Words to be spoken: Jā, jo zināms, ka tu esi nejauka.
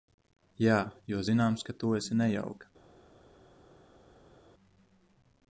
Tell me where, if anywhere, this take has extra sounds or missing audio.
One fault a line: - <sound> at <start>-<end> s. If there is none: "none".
none